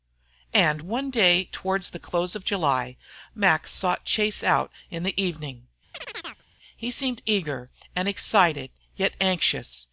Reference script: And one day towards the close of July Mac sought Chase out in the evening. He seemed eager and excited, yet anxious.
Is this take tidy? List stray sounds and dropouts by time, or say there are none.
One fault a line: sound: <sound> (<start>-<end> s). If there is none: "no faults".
sound: chirp (5.9-6.4 s)